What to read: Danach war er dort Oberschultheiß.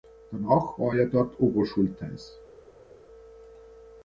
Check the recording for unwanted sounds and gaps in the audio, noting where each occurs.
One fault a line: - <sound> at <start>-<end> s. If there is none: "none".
none